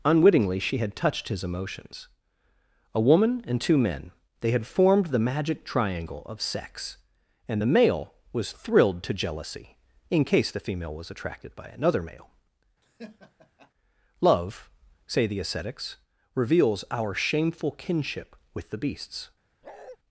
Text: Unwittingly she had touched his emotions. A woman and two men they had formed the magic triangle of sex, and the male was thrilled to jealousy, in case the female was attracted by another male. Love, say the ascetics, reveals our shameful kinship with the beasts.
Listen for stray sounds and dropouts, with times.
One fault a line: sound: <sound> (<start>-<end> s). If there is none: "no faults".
sound: laugh (12.8-13.7 s)
sound: bark (19.6-20.0 s)